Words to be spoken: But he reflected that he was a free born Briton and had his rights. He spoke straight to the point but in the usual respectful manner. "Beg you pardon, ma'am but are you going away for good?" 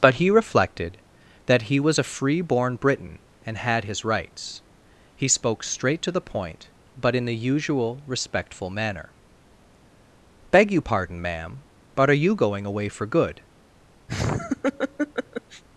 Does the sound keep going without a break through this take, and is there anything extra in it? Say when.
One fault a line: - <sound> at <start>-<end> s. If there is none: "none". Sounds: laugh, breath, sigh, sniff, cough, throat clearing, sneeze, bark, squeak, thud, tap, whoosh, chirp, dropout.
- laugh at 14.1-15.6 s